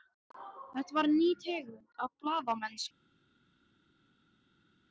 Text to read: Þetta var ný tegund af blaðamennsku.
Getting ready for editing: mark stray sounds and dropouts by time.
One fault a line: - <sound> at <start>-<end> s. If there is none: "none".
none